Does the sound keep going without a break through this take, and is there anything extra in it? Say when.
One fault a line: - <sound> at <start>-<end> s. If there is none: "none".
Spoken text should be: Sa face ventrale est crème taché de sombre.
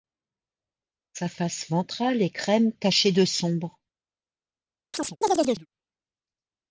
- chirp at 4.9-5.7 s